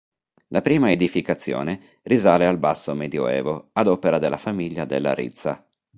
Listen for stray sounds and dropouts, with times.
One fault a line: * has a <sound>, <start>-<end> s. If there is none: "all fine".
all fine